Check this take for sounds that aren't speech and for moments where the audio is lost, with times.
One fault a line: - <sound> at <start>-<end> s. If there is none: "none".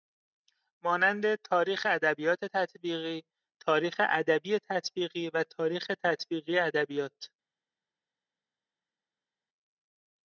none